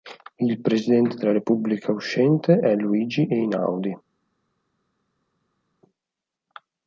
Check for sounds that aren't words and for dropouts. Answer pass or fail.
pass